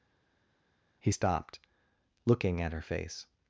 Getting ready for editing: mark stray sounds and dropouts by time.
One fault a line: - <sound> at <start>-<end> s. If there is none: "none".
none